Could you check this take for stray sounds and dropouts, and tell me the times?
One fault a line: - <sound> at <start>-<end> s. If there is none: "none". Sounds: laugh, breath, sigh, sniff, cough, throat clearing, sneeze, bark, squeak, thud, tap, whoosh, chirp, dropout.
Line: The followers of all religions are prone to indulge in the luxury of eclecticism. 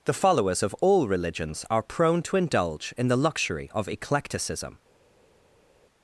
none